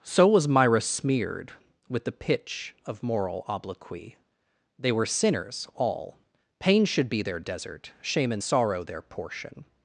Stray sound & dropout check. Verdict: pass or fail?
pass